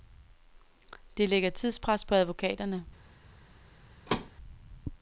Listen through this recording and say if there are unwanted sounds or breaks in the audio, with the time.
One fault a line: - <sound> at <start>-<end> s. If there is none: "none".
- thud at 4.1-4.3 s